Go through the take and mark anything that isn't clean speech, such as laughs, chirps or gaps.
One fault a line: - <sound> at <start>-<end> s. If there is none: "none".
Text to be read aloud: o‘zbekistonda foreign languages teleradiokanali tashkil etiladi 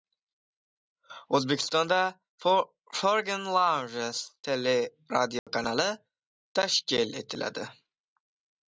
- dropout at 5.4-5.5 s